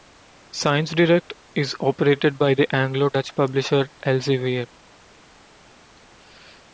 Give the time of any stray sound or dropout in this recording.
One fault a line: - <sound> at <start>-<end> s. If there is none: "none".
none